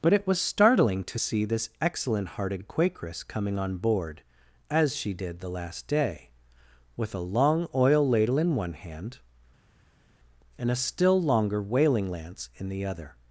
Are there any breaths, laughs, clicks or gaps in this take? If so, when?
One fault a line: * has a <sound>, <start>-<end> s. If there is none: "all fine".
all fine